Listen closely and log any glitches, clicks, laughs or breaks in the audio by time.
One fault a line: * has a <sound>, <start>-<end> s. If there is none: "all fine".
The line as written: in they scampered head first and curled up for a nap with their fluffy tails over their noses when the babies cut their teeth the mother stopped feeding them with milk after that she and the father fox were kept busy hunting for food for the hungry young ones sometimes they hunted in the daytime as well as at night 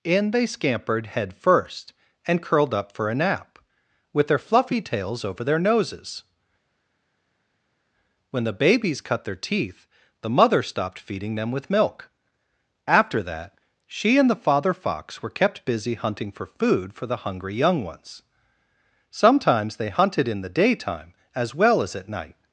all fine